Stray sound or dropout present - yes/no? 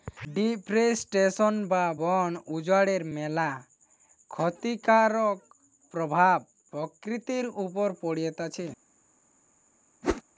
yes